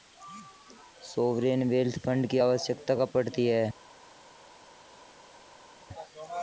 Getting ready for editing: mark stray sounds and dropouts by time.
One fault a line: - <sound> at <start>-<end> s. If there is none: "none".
none